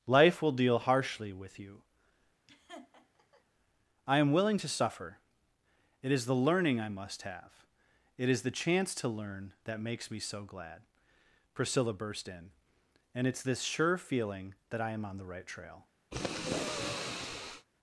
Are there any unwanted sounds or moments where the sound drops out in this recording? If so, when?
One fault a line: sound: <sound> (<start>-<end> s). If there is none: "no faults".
sound: laugh (2.5-3.4 s)
sound: sniff (16.1-17.7 s)